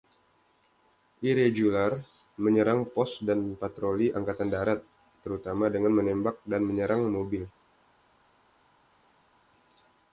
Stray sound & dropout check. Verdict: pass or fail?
pass